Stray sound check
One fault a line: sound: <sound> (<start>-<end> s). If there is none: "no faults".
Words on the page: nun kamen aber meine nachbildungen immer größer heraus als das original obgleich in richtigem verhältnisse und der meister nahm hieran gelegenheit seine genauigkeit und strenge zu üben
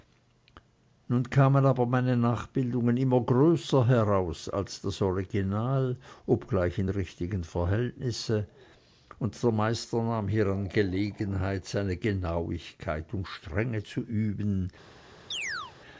sound: chirp (15.3-15.7 s)